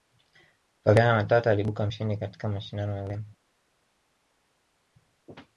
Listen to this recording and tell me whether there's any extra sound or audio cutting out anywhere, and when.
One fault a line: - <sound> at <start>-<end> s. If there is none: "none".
none